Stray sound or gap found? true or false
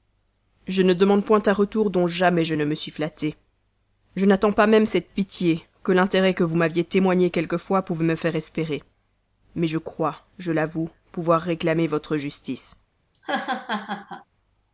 true